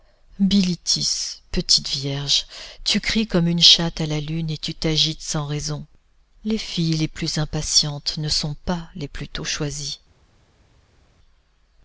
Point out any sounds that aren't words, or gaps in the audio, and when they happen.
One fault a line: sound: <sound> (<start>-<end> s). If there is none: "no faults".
no faults